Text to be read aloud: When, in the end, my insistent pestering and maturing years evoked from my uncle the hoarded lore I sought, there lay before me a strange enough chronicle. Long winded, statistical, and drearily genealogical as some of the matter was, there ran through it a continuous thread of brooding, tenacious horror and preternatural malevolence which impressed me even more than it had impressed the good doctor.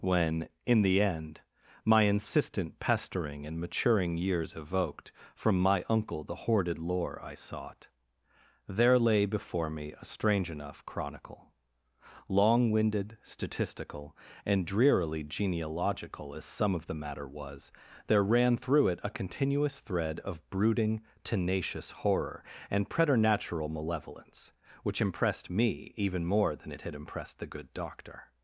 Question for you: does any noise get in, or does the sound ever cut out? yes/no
no